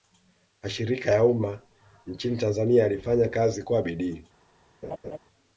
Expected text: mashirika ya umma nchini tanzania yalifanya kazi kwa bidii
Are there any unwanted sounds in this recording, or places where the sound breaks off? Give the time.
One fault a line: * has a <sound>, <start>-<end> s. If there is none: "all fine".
* has a laugh, 4.8-5.2 s